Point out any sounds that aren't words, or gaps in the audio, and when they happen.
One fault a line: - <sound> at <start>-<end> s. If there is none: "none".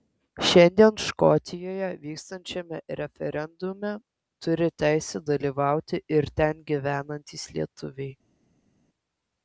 none